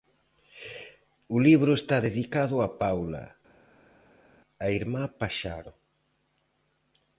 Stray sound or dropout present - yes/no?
no